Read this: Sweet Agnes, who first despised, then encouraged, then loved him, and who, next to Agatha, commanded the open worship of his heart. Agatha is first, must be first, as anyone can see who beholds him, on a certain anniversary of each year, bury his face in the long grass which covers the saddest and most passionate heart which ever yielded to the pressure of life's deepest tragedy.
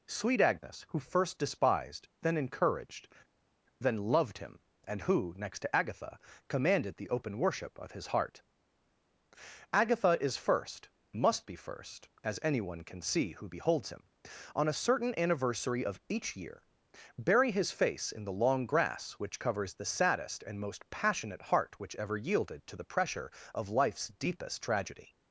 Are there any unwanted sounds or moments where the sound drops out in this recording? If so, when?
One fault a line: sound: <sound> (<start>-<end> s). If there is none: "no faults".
no faults